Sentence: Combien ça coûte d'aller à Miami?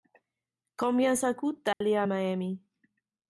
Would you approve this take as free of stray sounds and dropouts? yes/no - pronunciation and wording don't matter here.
no